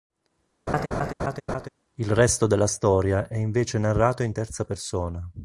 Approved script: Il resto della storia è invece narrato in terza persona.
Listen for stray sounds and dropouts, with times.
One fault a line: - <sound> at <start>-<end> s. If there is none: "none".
- laugh at 0.7-1.7 s